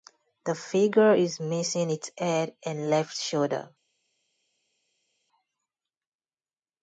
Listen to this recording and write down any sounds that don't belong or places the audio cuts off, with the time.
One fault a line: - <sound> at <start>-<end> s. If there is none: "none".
none